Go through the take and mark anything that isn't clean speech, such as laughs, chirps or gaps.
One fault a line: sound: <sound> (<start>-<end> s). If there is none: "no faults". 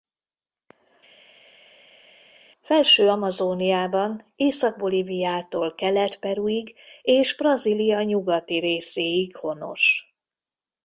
no faults